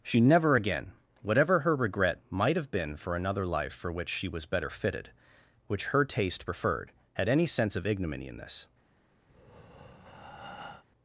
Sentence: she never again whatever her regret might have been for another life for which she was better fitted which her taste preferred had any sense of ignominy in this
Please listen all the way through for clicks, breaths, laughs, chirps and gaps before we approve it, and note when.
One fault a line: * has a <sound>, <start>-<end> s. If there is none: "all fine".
* has a breath, 9.3-10.8 s